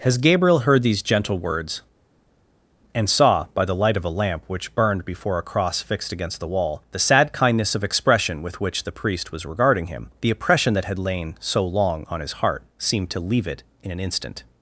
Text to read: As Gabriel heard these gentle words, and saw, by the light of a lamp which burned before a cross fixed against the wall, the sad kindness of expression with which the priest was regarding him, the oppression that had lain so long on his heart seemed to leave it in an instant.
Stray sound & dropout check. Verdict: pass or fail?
pass